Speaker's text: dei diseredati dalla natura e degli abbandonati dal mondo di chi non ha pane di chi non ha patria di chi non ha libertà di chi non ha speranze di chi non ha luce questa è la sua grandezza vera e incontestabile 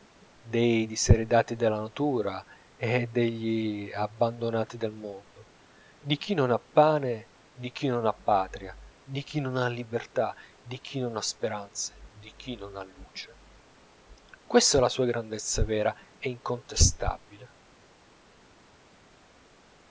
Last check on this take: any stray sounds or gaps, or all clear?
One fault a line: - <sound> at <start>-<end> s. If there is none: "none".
none